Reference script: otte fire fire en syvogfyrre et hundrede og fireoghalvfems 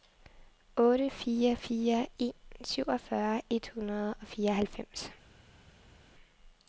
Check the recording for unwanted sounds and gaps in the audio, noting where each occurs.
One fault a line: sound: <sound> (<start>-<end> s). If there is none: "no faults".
no faults